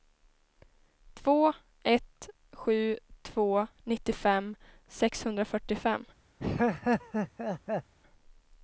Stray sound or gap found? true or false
true